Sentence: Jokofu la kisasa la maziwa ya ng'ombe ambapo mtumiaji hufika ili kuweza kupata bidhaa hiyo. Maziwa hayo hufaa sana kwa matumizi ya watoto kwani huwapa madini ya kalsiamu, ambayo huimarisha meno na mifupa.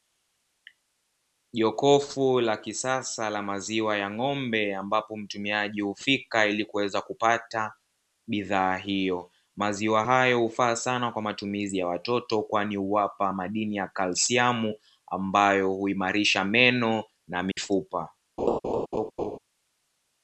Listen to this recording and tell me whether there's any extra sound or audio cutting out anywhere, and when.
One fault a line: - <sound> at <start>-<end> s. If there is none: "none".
- dropout at 17.5-17.6 s
- laugh at 18.4-19.4 s